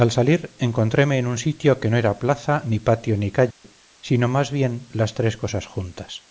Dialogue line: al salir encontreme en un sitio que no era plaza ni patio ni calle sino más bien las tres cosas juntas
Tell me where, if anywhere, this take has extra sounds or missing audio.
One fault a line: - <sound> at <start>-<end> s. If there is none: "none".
- dropout at 3.5-3.6 s